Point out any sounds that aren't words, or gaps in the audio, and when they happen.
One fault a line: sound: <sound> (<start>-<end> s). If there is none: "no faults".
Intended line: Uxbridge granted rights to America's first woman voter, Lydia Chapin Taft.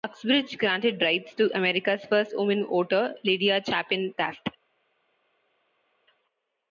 no faults